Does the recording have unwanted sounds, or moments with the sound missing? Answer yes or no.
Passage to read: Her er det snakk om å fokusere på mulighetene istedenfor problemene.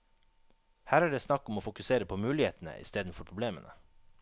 no